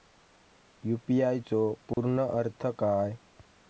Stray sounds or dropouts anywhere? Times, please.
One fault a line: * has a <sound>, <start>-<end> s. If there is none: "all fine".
* has a dropout, 1.9-2.0 s